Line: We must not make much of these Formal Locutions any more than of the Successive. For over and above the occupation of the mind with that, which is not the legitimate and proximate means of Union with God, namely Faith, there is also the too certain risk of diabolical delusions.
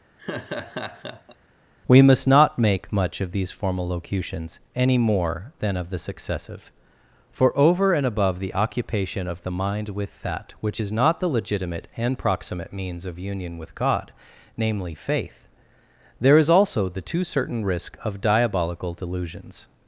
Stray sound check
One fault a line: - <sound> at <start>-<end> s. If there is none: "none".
- laugh at 0.2-1.4 s